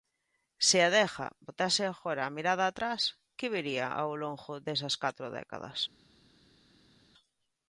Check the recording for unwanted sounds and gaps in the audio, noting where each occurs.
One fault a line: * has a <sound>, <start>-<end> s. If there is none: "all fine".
all fine